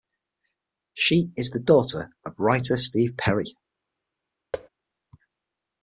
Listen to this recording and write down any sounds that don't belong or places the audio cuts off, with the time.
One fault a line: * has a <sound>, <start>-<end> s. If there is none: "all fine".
* has a thud, 4.5-4.7 s